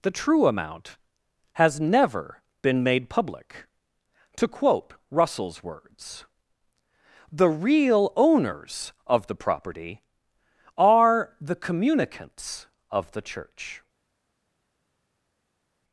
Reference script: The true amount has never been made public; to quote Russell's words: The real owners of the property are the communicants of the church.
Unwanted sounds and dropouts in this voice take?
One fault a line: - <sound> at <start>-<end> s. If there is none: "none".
none